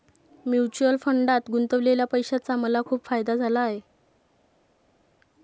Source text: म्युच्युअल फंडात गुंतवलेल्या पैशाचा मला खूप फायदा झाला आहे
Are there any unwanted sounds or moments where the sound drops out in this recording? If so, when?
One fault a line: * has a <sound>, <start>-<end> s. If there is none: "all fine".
all fine